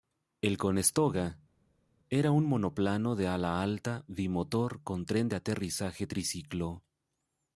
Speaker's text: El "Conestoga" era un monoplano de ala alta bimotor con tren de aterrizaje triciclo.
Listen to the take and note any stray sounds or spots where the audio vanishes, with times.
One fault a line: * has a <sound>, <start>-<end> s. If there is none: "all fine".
all fine